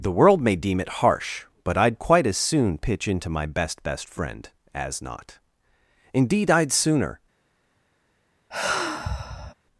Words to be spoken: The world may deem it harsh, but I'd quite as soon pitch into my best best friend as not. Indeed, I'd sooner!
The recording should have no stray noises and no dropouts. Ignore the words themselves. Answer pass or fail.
fail